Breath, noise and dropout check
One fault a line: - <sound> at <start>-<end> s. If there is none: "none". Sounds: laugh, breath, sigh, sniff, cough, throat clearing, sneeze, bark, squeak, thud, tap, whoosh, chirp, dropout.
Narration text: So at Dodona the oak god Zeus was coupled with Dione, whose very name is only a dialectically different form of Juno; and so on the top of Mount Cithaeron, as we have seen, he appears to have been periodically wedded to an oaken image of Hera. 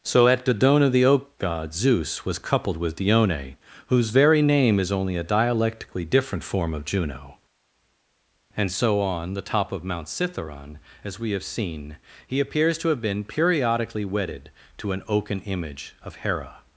none